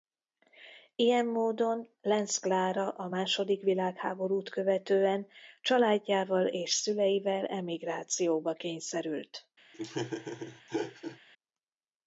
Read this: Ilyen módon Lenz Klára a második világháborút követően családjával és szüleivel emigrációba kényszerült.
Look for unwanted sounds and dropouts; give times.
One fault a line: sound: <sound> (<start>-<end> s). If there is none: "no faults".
sound: laugh (9.7-11.2 s)